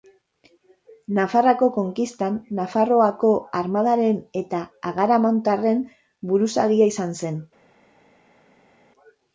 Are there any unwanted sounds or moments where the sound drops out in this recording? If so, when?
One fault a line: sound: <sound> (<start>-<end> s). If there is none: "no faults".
no faults